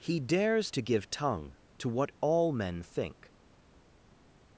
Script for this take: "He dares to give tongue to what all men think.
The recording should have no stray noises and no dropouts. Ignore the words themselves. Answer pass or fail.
pass